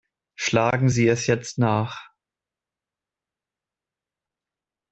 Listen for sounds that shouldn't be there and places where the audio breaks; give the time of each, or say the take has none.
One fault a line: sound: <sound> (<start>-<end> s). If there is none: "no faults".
no faults